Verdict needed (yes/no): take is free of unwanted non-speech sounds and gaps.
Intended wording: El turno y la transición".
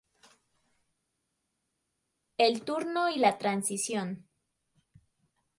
yes